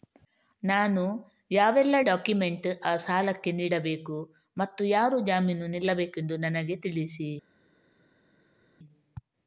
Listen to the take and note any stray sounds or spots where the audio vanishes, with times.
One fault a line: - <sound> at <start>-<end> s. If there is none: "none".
none